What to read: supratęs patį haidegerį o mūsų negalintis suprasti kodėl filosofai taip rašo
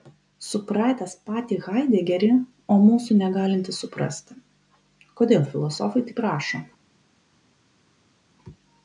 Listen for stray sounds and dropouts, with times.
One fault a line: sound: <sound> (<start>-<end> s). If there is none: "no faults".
no faults